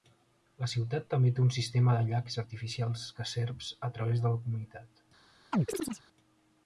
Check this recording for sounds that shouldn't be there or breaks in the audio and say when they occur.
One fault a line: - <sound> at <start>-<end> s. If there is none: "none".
- chirp at 5.5-6.0 s